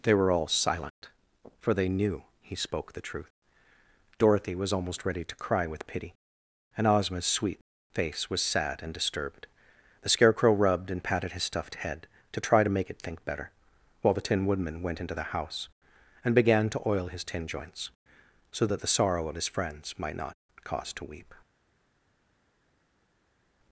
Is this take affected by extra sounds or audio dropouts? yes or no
no